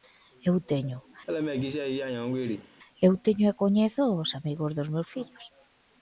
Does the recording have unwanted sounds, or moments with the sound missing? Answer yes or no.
yes